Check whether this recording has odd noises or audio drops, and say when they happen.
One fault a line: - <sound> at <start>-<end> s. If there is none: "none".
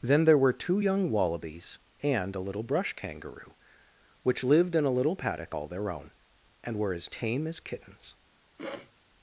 - sniff at 8.6-8.9 s